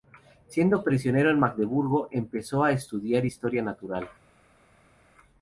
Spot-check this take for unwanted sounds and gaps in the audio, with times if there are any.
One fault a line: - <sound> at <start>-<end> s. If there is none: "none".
none